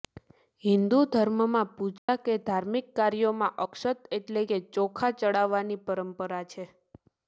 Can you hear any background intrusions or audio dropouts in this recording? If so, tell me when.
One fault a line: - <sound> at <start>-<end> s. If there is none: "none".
- dropout at 2.0-2.1 s